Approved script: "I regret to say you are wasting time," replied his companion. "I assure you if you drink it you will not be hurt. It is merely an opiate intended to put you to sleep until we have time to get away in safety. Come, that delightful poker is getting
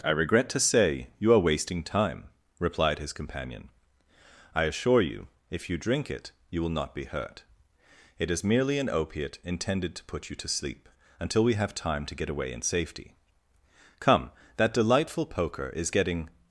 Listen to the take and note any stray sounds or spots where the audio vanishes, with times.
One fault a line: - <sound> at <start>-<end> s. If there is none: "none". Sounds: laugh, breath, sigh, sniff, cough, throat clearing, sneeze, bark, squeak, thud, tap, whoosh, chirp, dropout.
none